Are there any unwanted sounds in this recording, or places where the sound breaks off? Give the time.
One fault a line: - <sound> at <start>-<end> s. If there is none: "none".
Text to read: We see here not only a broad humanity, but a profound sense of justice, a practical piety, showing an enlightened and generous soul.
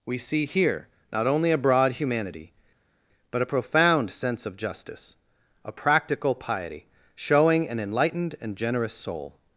none